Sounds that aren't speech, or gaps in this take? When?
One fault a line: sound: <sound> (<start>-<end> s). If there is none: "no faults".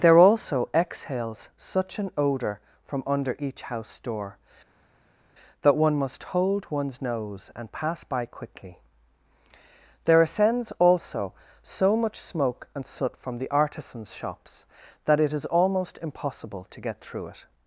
no faults